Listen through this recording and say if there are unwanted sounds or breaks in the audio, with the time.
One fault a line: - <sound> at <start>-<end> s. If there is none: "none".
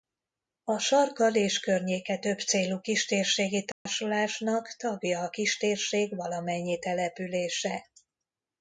- dropout at 3.7-3.9 s